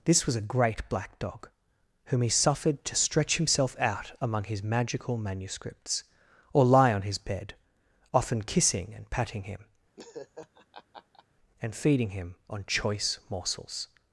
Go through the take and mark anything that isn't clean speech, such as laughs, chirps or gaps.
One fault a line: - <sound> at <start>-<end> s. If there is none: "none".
- laugh at 10.0-11.2 s